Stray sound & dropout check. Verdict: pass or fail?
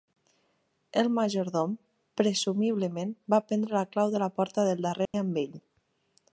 fail